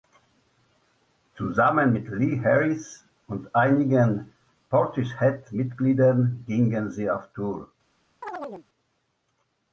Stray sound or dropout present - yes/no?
yes